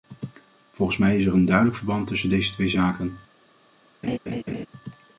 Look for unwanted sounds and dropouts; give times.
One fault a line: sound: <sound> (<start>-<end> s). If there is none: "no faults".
sound: laugh (4.0-4.7 s)